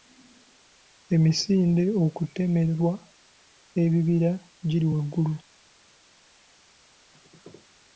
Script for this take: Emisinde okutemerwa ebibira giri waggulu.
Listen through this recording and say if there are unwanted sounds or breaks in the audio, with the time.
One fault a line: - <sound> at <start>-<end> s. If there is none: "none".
none